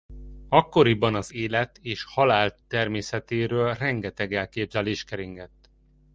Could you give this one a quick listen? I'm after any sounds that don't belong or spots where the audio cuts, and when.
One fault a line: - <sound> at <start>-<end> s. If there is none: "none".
none